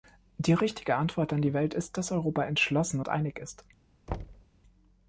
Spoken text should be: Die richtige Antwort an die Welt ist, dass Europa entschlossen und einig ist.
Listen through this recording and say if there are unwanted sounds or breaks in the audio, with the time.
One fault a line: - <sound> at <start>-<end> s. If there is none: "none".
- thud at 4.1-4.5 s